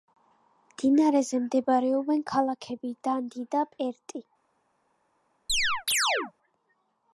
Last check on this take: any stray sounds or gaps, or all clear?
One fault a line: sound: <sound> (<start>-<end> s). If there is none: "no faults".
sound: chirp (5.5-6.3 s)